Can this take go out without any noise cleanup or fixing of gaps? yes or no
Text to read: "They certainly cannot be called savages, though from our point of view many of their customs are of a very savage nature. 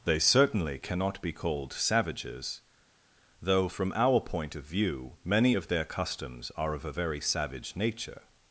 yes